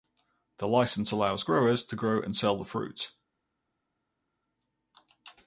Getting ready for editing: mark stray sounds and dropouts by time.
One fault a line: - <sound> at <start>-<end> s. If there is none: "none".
none